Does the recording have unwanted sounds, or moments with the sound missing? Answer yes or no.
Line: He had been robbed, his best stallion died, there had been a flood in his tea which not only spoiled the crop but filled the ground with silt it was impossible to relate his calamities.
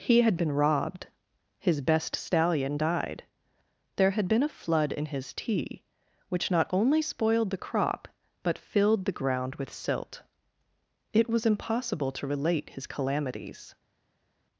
no